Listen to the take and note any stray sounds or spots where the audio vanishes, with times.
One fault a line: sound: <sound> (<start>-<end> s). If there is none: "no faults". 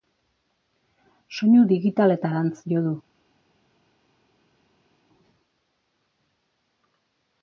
no faults